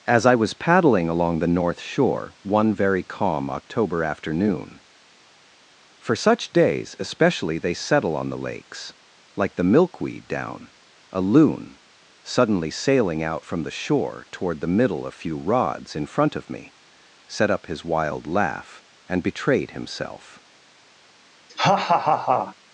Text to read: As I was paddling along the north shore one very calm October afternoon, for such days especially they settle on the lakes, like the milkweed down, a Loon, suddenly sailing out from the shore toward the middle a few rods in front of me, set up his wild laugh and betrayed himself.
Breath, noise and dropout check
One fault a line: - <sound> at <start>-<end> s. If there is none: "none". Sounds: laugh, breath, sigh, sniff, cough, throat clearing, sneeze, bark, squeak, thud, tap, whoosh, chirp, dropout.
- laugh at 21.5-22.6 s